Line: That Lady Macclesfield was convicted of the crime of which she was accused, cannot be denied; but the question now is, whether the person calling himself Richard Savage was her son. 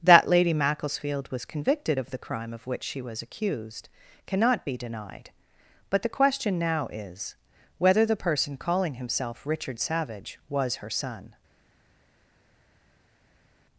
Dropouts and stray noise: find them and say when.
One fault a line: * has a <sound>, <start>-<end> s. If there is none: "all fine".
all fine